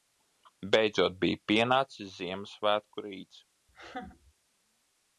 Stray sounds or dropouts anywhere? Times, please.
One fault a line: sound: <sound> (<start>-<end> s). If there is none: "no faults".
sound: laugh (3.7-4.3 s)